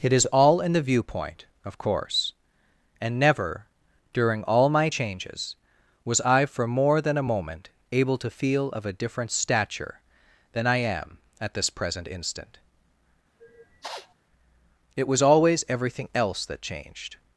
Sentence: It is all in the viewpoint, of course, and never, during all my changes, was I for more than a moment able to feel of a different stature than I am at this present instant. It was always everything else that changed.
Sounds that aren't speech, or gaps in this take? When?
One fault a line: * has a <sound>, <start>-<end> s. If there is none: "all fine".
* has a sniff, 13.4-14.1 s